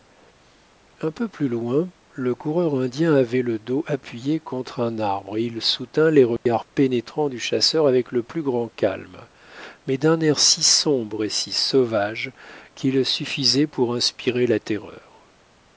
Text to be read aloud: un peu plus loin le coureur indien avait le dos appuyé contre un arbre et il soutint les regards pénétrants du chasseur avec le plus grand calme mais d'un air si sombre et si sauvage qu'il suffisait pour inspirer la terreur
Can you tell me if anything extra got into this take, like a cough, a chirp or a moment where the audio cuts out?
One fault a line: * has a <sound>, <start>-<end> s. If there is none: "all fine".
* has a dropout, 6.4-6.5 s